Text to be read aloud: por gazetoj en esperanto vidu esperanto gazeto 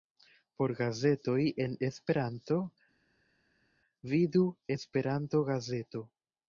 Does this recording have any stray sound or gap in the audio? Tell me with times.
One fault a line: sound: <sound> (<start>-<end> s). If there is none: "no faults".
no faults